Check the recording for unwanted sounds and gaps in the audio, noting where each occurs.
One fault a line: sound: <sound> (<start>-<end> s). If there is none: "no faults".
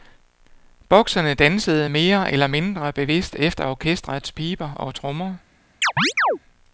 sound: chirp (5.8-6.4 s)